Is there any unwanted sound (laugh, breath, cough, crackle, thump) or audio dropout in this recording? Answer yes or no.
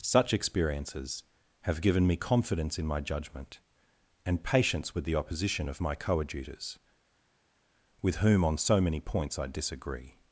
no